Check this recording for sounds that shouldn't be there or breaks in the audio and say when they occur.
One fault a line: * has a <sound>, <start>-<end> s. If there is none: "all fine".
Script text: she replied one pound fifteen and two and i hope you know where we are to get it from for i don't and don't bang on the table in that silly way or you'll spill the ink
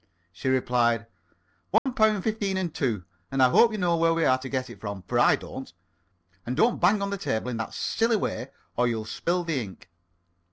* has a dropout, 1.8-1.9 s